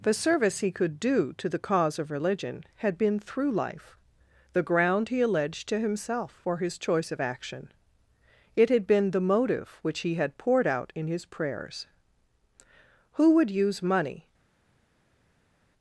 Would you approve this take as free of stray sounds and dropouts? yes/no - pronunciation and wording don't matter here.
yes